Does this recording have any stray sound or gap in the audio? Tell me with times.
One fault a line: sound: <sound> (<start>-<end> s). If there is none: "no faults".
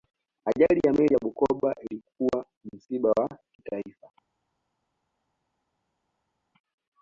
no faults